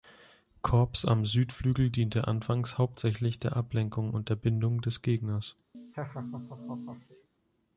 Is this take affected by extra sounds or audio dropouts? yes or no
yes